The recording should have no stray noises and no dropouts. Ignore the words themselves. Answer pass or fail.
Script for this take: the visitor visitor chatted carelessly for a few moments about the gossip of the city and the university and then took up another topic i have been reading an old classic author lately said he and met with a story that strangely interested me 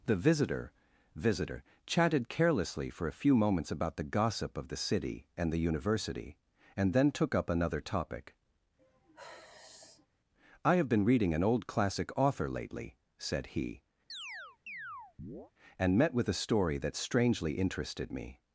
fail